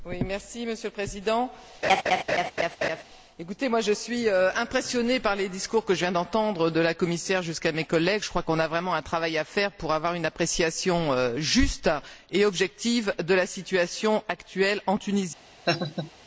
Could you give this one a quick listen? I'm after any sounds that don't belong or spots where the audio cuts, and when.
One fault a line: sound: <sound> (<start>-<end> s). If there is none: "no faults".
sound: laugh (1.8-3.0 s)
sound: laugh (15.6-16.1 s)